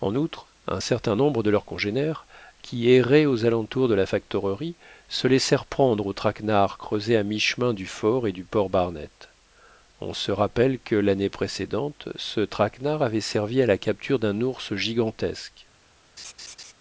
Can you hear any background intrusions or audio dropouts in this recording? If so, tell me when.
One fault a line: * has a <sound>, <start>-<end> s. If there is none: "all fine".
* has a laugh, 16.2-16.7 s